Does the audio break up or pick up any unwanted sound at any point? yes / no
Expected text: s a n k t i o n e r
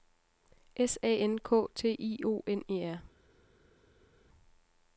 no